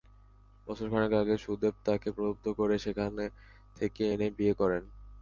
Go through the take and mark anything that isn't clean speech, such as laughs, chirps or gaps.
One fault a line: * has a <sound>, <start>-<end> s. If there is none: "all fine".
all fine